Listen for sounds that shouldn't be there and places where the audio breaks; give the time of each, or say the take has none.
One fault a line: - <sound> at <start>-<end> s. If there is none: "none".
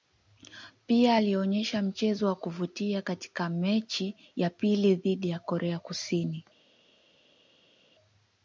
none